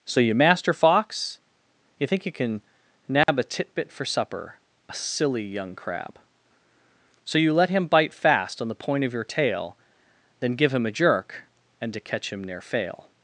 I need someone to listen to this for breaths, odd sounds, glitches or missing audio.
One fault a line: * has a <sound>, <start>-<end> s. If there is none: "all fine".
* has a dropout, 3.2-3.3 s